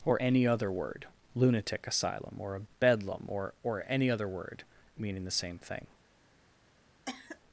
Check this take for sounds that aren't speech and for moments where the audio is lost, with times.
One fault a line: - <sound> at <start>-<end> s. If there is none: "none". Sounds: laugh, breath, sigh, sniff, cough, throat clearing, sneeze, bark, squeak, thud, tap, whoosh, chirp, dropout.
- cough at 7.1-7.4 s